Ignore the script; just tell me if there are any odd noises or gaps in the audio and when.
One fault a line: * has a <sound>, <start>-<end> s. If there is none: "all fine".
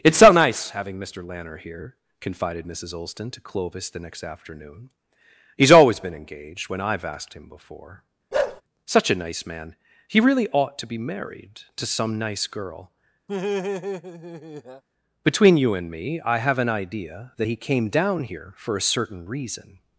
* has a bark, 8.3-8.6 s
* has a laugh, 13.3-14.8 s